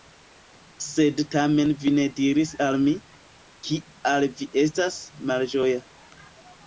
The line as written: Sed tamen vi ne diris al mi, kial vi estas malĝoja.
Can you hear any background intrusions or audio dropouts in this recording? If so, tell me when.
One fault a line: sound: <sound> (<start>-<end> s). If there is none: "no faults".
no faults